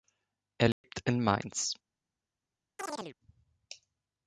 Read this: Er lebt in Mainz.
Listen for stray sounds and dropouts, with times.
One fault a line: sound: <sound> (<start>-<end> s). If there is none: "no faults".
sound: dropout (0.7-0.8 s)
sound: chirp (2.8-3.2 s)